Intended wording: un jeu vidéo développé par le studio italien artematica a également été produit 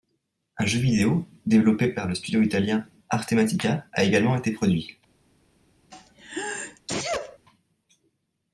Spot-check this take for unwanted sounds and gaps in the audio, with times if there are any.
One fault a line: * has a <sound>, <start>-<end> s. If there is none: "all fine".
* has a sneeze, 5.9-7.4 s